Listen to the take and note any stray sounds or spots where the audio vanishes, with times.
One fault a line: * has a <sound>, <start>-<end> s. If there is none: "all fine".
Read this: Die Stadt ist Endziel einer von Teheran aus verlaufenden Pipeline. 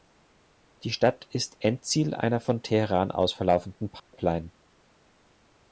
* has a dropout, 4.0-4.1 s